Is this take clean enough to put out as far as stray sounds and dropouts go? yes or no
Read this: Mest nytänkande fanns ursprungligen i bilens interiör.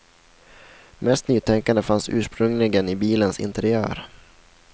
yes